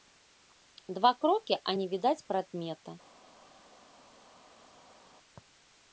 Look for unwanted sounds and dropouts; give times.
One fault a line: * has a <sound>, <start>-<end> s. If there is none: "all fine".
all fine